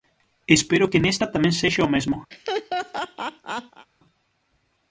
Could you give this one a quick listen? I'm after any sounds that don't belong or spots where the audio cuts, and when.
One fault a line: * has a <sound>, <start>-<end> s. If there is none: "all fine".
* has a laugh, 2.3-3.9 s